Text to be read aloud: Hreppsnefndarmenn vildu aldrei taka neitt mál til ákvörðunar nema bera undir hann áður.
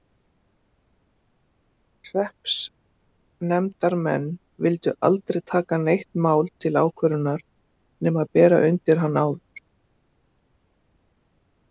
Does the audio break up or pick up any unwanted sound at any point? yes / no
no